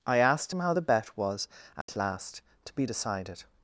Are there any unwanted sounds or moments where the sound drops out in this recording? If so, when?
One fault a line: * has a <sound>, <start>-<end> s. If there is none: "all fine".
* has a dropout, 1.8-1.9 s